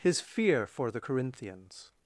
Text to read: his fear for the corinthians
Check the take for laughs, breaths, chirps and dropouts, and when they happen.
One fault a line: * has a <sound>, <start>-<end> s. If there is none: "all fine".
all fine